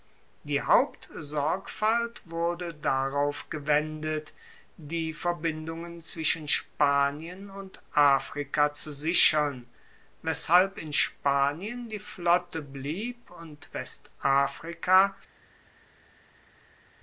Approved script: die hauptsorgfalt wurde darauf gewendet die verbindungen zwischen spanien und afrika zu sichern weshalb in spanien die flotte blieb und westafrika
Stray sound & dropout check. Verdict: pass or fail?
pass